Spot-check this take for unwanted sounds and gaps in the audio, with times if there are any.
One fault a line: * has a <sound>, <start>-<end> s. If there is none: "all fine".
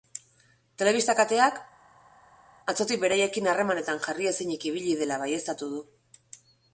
all fine